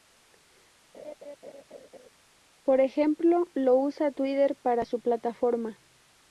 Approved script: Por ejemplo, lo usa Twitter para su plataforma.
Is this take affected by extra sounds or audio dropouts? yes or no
yes